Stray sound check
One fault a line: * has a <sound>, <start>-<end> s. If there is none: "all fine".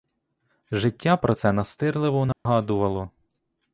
* has a dropout, 2.3-2.5 s